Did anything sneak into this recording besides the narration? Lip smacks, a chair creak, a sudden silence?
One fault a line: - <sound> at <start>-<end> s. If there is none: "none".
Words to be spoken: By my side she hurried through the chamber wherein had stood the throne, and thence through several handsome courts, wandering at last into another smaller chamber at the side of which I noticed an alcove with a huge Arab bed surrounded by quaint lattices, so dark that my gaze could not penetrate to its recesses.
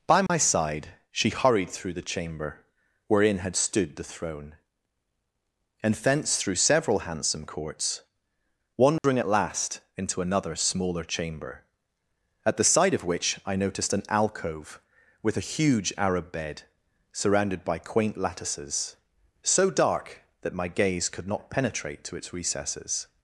- dropout at 0.3-0.3 s
- dropout at 9.0-9.0 s